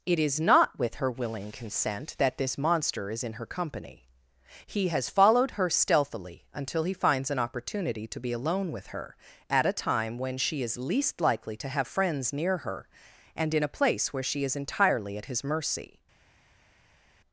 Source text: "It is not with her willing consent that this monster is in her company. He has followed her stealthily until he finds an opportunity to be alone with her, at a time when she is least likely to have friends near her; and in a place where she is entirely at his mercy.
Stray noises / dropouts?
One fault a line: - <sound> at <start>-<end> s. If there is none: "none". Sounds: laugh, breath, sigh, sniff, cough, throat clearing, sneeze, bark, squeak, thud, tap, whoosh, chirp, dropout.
none